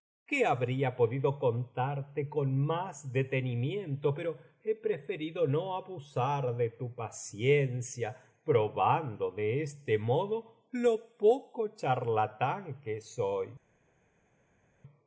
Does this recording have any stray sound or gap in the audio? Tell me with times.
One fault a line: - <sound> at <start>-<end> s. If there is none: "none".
none